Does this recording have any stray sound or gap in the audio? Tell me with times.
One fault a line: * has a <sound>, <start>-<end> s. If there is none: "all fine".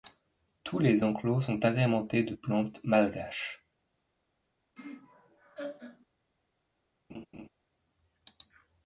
* has a laugh, 4.8-6.1 s
* has a laugh, 7.1-7.5 s